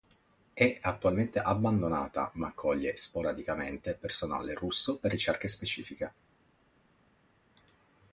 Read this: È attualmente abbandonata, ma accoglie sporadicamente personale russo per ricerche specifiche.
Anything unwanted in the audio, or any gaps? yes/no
no